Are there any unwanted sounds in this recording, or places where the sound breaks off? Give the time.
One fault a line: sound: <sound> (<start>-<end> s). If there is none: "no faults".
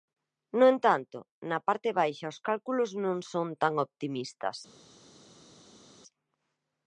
no faults